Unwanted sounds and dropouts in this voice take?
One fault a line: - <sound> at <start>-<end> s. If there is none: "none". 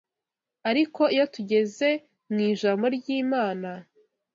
none